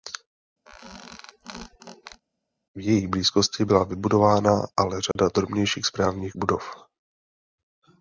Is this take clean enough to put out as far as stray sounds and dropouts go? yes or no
no